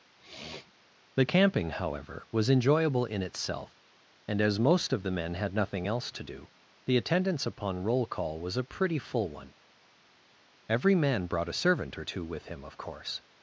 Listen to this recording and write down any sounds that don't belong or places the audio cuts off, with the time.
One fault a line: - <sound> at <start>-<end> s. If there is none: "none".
- sniff at 0.2-0.7 s